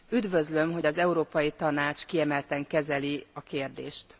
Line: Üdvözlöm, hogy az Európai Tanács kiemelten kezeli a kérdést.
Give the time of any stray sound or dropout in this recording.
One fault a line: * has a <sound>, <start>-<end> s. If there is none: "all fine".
all fine